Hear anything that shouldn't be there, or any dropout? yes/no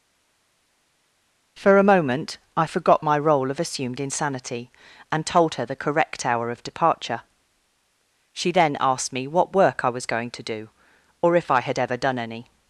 no